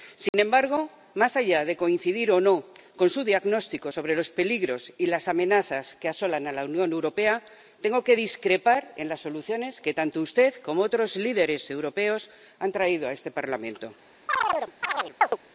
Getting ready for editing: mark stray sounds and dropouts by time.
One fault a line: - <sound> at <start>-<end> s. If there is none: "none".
- dropout at 0.3-0.3 s
- chirp at 14.3-15.4 s